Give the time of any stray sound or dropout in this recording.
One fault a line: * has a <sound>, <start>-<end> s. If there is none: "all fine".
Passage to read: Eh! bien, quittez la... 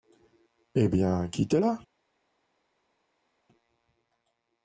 all fine